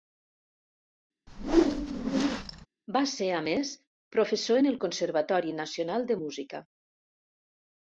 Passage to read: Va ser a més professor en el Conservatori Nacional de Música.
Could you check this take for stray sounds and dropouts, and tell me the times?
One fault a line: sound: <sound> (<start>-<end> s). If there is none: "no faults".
sound: whoosh (1.3-2.7 s)